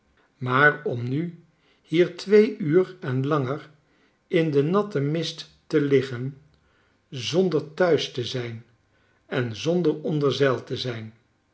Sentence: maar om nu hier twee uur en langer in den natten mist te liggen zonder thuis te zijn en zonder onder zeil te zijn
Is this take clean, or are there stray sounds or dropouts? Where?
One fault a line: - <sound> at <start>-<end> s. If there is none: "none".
none